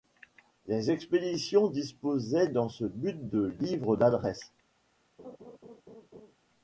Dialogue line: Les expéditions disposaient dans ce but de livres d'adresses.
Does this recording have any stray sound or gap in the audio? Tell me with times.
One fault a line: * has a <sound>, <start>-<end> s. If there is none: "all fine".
* has a laugh, 5.2-6.3 s